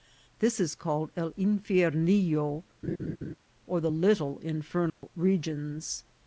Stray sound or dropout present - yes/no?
yes